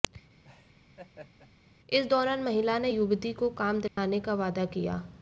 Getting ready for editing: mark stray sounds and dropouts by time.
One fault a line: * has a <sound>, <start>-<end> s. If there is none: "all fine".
* has a laugh, 0.4-1.5 s
* has a dropout, 3.9-4.0 s